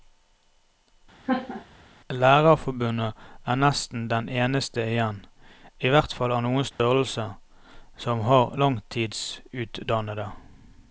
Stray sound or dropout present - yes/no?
yes